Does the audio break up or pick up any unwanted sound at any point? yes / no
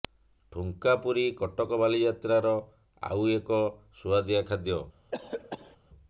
yes